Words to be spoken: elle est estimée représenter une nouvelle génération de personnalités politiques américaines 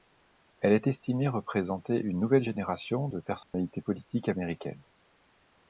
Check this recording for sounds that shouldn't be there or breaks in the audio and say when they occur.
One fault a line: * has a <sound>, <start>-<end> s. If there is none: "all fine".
* has a dropout, 3.4-3.5 s